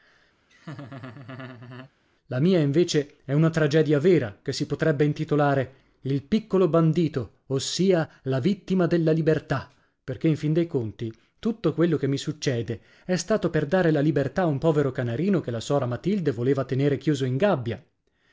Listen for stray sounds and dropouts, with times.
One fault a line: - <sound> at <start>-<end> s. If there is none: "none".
- laugh at 0.5-1.9 s